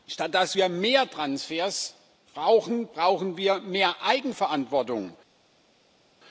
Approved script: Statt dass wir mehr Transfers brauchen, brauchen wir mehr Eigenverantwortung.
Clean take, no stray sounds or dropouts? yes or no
yes